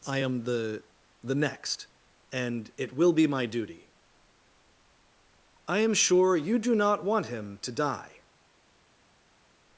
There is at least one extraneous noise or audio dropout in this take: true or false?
false